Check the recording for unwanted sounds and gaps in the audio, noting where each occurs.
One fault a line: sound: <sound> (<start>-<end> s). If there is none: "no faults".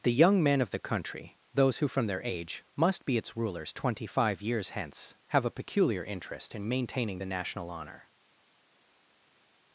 no faults